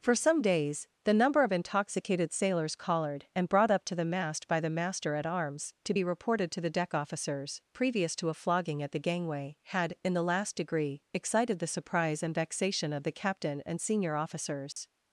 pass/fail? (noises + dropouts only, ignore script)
fail